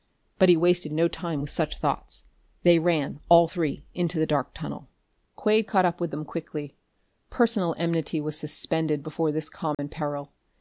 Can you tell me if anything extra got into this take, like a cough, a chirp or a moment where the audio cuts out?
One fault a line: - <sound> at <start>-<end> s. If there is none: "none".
- dropout at 9.7-9.8 s